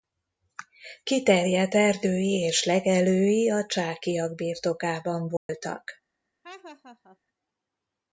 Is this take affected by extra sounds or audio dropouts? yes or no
yes